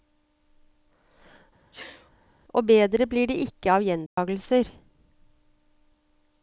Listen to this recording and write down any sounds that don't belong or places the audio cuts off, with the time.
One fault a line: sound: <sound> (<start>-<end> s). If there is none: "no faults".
sound: sneeze (1.7-2.1 s)
sound: dropout (4.1-4.2 s)